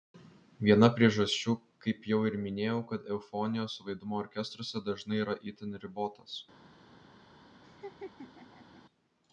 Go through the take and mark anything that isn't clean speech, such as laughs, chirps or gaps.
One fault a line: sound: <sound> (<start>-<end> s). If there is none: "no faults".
sound: laugh (7.6-8.8 s)